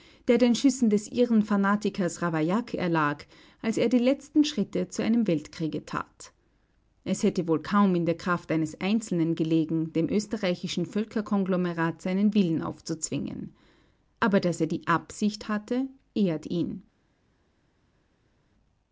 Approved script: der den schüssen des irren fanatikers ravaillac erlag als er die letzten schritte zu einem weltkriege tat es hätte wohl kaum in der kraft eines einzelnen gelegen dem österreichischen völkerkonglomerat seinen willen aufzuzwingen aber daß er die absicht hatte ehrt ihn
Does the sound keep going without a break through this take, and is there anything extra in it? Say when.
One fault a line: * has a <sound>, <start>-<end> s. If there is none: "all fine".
all fine